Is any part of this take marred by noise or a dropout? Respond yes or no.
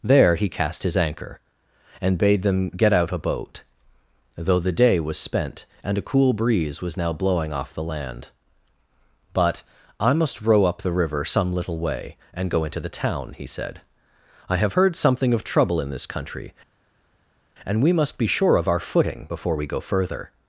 no